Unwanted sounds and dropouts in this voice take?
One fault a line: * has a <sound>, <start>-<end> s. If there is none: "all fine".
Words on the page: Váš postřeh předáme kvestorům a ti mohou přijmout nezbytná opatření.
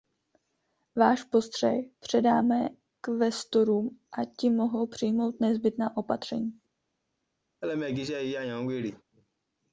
* has a laugh, 7.6-9.0 s